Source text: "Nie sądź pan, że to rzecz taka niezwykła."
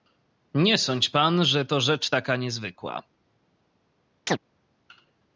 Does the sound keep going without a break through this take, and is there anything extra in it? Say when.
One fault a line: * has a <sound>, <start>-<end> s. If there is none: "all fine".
* has a chirp, 4.3-4.4 s